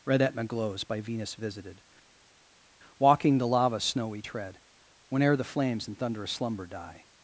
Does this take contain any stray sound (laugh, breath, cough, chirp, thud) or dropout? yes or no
no